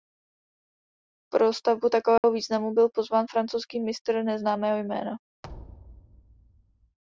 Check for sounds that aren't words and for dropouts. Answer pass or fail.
fail